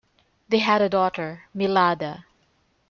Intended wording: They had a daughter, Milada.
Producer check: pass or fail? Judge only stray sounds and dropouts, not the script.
pass